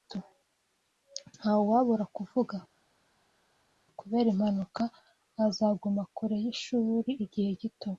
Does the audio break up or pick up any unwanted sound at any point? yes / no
no